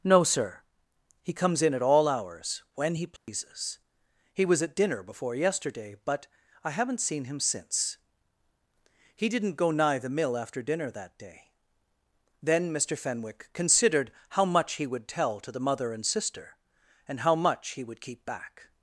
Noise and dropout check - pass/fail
fail